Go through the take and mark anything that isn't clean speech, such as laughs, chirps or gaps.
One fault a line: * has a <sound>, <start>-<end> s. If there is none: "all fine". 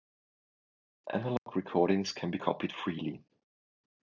* has a dropout, 1.4-1.5 s